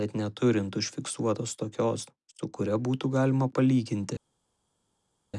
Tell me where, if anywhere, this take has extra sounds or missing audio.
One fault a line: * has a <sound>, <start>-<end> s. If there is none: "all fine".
all fine